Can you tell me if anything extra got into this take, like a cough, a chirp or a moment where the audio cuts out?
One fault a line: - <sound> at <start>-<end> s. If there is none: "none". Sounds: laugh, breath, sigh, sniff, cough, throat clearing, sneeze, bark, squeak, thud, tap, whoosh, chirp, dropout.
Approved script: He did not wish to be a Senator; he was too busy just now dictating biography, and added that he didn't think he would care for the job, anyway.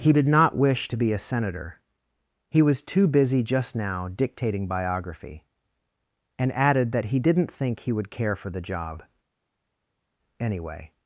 none